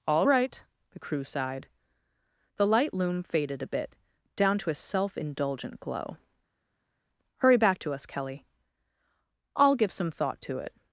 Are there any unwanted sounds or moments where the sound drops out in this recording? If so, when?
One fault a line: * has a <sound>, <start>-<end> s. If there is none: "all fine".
all fine